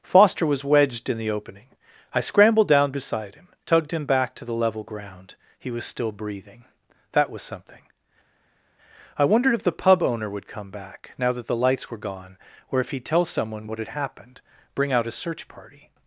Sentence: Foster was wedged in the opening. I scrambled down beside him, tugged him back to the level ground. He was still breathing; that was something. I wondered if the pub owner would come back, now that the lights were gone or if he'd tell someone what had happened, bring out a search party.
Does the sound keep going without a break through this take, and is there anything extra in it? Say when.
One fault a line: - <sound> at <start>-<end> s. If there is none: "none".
none